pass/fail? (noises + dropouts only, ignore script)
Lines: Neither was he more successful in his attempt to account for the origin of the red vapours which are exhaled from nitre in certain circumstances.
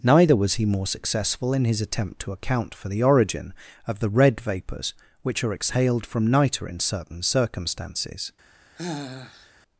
fail